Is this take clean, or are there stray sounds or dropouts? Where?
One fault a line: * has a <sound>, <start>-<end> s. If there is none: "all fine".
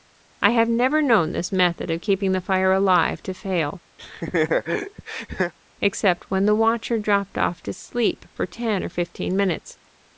* has a laugh, 4.0-5.5 s